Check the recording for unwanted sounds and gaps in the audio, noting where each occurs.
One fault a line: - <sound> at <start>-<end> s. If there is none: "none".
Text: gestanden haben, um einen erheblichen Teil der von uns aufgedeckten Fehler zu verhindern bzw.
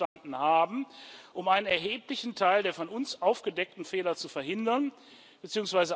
- dropout at 0.1-0.2 s